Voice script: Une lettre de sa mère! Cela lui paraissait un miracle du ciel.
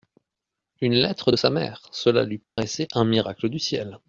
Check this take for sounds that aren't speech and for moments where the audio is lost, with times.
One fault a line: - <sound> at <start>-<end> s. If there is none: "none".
- dropout at 2.4-2.6 s